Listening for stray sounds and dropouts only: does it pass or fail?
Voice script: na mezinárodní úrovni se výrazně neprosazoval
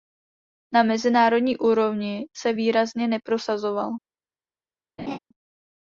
fail